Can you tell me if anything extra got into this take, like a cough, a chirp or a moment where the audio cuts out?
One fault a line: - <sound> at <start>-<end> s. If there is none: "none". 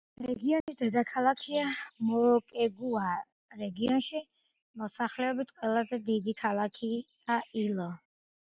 - dropout at 0.6-0.7 s